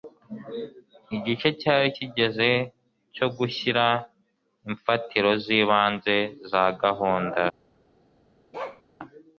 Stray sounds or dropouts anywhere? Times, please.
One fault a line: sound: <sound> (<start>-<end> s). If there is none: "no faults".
sound: bark (8.5-8.8 s)